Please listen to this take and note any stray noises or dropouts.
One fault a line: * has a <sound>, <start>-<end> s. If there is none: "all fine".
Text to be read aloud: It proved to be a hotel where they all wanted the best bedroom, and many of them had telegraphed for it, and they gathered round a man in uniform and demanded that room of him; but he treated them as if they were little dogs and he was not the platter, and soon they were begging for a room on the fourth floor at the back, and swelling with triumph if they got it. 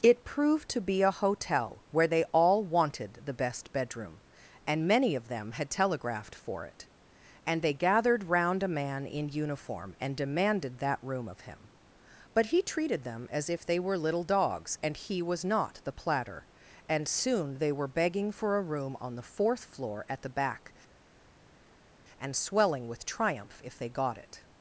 all fine